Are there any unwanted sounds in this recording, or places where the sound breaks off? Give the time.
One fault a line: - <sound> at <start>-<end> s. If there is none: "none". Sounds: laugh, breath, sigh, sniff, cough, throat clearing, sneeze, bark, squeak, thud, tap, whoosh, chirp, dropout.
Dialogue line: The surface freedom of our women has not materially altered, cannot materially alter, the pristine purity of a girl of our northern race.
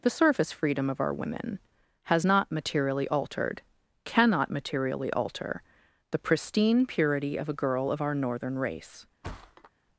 - thud at 9.2-9.7 s